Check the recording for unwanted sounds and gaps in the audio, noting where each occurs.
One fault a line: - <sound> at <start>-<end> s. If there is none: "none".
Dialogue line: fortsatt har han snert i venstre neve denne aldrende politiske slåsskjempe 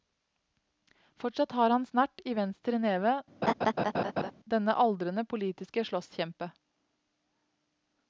- laugh at 3.4-4.3 s